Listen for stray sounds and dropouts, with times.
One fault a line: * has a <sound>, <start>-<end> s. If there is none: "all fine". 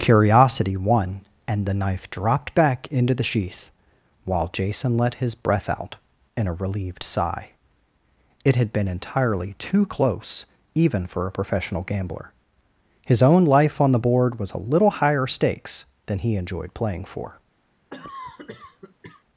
* has a cough, 17.9-19.2 s